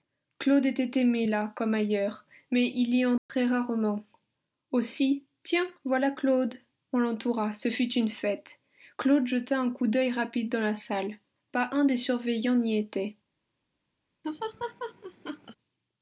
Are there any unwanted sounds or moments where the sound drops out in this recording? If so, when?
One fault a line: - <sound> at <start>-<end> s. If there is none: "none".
- dropout at 3.2-3.3 s
- laugh at 14.2-15.6 s